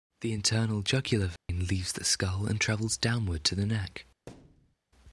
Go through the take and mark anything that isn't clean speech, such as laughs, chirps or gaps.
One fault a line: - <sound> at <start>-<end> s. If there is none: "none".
- dropout at 1.4-1.5 s
- thud at 4.3-4.8 s